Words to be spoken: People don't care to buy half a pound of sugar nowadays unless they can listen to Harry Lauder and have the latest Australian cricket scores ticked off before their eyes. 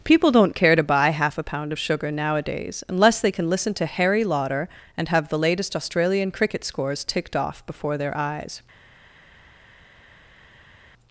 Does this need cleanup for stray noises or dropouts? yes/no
no